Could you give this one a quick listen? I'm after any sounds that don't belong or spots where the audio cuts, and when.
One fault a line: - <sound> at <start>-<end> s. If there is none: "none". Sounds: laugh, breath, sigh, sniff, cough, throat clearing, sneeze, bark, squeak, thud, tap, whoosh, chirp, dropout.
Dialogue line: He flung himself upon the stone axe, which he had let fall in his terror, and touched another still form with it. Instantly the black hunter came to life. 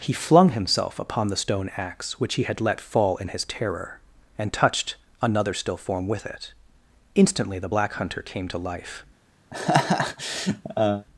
- laugh at 9.5-11.1 s